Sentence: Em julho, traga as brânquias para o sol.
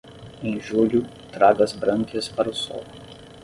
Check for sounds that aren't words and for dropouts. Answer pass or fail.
pass